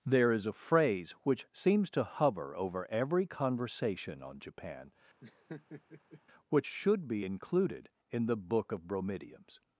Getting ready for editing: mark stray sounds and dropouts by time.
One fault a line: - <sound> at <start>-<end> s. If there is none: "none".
- laugh at 5.2-6.2 s